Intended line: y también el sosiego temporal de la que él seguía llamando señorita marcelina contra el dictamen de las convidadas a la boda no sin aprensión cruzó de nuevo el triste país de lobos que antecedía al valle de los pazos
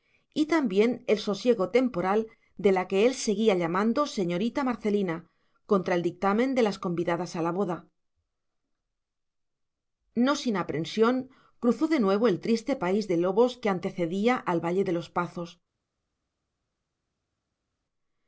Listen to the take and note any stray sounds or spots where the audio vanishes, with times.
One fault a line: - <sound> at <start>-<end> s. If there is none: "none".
none